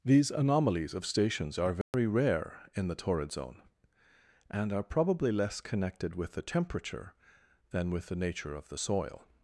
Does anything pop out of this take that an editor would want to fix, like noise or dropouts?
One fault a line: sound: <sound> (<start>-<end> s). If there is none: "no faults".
sound: dropout (1.8-1.9 s)